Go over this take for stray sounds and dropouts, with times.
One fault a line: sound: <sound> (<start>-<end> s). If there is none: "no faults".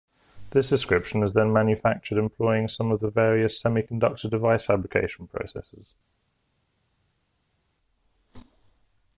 no faults